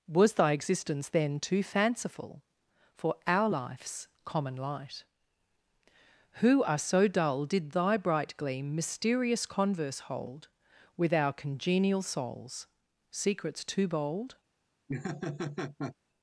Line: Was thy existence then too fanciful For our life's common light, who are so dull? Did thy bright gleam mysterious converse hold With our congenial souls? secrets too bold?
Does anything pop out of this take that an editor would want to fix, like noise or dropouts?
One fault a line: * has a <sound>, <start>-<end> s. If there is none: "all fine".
* has a laugh, 14.9-16.0 s